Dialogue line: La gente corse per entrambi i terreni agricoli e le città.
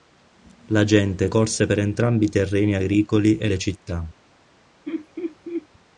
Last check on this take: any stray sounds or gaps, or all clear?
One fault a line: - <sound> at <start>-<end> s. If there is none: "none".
- laugh at 4.9-5.7 s